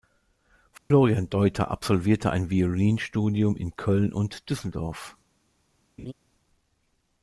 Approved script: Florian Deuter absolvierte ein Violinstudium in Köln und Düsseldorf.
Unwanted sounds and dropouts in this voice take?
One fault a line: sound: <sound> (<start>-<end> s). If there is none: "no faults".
sound: dropout (0.8-0.9 s)
sound: laugh (6.0-6.1 s)